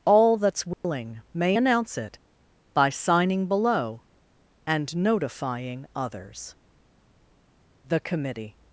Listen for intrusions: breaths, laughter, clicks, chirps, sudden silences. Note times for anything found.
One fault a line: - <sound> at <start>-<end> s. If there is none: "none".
- dropout at 0.7-0.8 s